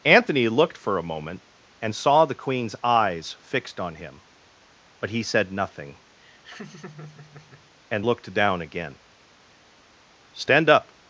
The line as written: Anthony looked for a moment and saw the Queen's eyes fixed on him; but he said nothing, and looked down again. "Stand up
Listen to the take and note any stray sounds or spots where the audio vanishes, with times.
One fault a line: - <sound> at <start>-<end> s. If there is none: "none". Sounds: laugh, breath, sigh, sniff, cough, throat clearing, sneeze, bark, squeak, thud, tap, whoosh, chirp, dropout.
- laugh at 6.2-7.7 s